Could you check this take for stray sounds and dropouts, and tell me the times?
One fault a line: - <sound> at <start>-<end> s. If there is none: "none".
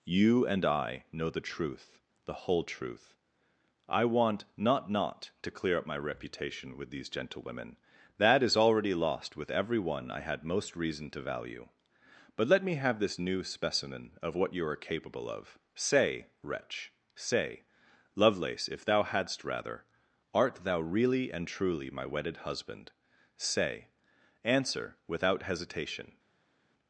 none